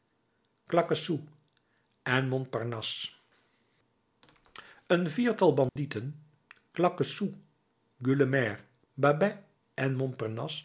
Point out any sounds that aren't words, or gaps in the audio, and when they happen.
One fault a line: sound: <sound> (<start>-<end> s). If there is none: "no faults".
sound: dropout (5.7-5.8 s)